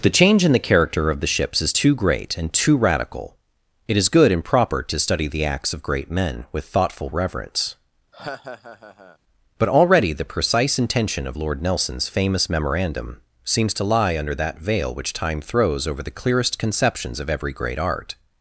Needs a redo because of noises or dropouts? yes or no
yes